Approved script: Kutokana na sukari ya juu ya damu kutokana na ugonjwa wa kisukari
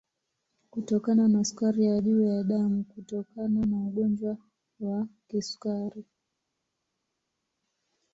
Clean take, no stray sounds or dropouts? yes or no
yes